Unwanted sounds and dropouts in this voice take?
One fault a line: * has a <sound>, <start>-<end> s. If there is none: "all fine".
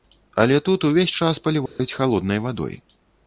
* has a dropout, 1.7-1.8 s